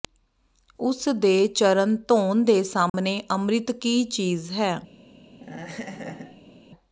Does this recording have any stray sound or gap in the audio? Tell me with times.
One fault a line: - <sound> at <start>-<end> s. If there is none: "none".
- dropout at 2.9-2.9 s
- laugh at 5.3-6.6 s